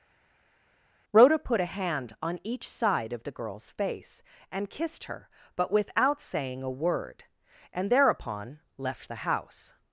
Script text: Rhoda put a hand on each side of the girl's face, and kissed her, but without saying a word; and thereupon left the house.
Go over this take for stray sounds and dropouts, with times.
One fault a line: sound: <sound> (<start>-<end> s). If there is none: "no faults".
no faults